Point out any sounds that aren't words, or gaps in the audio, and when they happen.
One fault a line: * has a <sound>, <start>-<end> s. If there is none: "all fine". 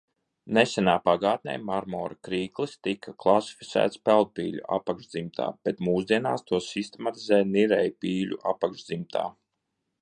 all fine